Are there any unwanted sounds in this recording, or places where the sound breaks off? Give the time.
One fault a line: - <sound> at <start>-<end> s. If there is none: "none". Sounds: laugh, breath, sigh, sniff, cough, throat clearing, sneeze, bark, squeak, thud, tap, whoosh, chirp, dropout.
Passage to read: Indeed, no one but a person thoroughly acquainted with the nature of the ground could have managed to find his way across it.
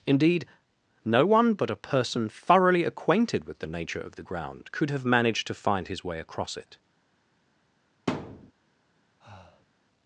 - thud at 8.1-8.5 s
- breath at 9.2-9.7 s